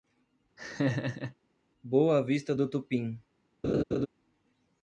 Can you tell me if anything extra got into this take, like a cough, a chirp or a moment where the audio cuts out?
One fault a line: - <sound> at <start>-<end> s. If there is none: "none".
- laugh at 0.6-1.3 s
- laugh at 3.6-4.1 s